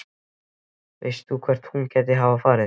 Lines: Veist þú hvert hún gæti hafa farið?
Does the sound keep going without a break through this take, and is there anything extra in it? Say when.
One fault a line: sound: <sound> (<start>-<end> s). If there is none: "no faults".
no faults